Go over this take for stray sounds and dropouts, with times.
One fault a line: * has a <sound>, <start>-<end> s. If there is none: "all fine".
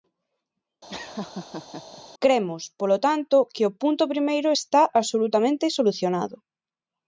* has a laugh, 0.9-2.0 s